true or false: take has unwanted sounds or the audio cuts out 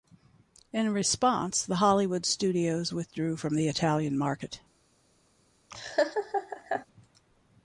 true